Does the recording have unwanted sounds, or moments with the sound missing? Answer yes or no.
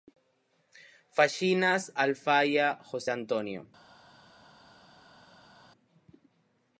no